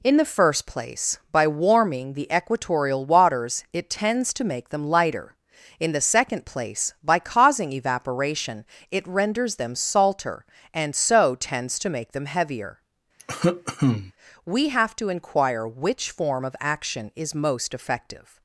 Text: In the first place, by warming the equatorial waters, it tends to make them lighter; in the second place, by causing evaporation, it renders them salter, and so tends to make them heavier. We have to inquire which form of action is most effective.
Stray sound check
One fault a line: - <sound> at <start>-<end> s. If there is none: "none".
- cough at 13.2-14.1 s